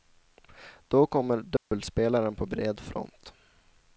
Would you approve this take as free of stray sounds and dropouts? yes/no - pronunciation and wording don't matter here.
no